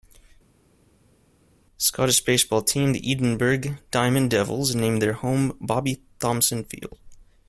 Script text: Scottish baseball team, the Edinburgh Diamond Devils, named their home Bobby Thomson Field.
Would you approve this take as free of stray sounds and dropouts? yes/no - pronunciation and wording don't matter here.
yes